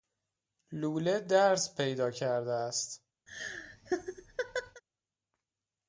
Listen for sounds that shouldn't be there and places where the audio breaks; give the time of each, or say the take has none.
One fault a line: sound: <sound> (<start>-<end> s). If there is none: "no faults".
sound: laugh (3.3-4.8 s)